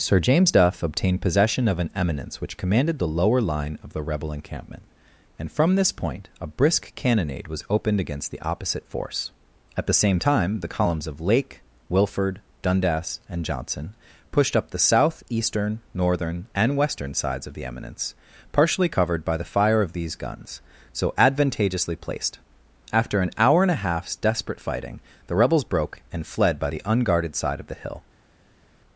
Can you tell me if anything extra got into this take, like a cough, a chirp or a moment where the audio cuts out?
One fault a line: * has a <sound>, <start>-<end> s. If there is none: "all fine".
all fine